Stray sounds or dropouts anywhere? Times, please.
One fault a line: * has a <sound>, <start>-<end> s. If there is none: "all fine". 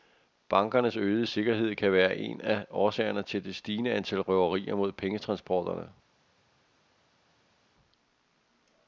all fine